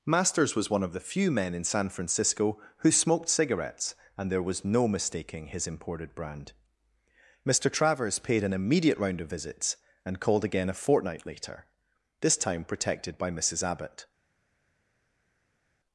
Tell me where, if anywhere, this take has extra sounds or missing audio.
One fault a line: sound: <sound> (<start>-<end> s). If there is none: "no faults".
no faults